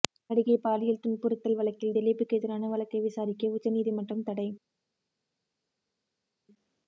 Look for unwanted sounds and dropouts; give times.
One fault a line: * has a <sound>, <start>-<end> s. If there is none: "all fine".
all fine